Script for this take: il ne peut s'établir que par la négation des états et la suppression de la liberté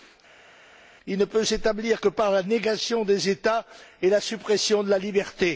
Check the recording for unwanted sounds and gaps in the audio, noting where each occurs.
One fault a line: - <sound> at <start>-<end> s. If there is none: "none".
none